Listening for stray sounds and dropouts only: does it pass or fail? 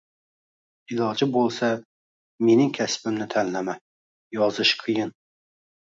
pass